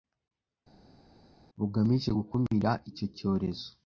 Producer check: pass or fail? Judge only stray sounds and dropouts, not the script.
pass